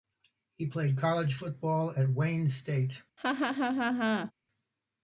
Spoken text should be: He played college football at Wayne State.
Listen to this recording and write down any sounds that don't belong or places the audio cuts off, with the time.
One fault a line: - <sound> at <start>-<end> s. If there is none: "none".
- laugh at 3.2-4.3 s